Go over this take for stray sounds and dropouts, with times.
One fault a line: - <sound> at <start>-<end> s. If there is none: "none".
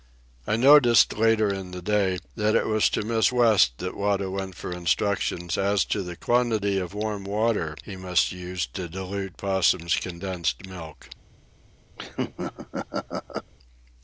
- laugh at 12.0-13.5 s